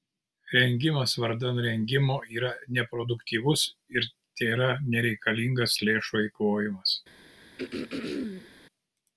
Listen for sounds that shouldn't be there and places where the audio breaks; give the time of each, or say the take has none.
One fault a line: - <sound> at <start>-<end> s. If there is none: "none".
- throat clearing at 7.6-8.5 s